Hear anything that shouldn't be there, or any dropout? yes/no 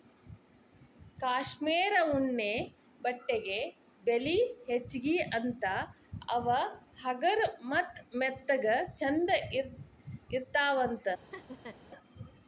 yes